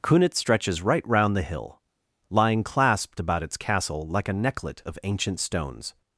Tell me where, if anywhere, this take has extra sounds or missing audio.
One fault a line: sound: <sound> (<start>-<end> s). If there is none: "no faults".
no faults